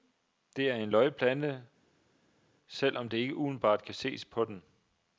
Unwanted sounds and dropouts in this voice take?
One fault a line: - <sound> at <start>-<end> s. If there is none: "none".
none